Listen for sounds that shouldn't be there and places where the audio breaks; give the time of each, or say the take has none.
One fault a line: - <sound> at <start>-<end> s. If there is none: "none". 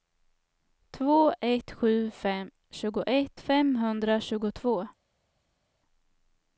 none